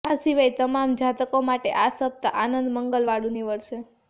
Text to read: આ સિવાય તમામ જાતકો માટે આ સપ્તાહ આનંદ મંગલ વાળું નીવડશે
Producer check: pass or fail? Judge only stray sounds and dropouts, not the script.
pass